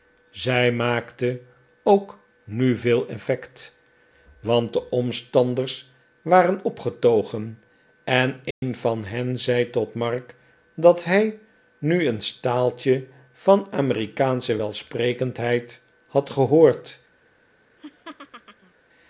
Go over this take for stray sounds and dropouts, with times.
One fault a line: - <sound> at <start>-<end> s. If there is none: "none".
- dropout at 8.5-8.6 s
- laugh at 17.8-18.7 s